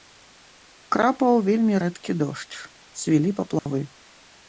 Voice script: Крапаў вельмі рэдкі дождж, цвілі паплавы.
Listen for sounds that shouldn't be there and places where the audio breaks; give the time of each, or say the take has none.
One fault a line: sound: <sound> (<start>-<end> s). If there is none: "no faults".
sound: dropout (3.6-3.7 s)